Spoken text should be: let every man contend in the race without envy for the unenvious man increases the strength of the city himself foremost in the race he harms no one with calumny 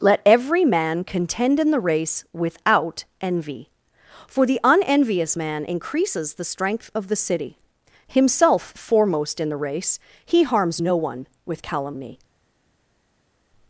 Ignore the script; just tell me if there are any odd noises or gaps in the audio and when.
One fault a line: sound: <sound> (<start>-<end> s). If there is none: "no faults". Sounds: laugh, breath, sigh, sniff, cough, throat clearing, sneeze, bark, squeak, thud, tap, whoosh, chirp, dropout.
no faults